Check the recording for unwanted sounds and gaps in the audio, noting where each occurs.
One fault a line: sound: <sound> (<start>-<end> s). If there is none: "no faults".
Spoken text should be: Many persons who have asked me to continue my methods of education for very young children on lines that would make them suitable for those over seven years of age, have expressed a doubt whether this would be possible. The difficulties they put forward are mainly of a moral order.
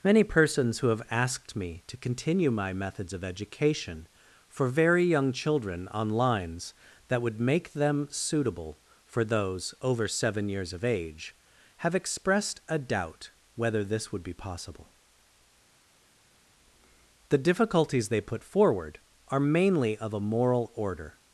no faults